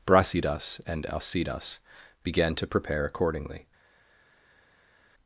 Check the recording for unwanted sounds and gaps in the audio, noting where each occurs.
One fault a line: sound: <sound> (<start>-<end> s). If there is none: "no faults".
no faults